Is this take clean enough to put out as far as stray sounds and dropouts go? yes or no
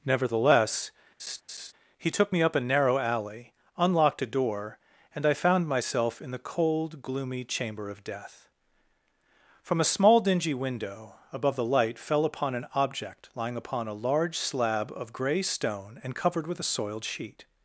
no